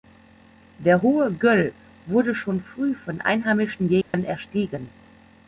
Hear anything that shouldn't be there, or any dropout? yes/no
yes